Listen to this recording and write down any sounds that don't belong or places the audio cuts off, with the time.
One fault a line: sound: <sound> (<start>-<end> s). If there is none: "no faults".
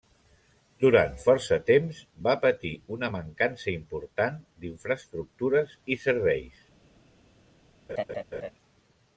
sound: laugh (7.9-8.5 s)